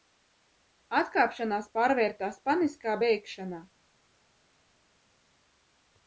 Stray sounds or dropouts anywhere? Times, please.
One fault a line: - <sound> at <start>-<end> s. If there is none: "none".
none